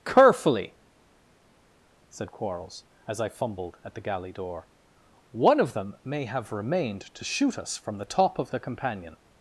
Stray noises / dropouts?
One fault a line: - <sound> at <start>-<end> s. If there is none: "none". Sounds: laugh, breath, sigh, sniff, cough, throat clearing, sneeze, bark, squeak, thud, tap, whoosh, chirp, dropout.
none